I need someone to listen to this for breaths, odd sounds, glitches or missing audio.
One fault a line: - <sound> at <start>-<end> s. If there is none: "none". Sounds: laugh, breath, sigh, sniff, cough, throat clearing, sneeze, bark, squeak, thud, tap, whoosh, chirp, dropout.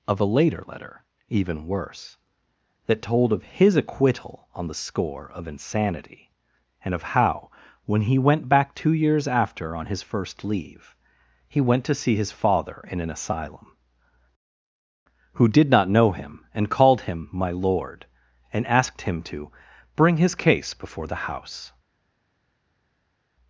none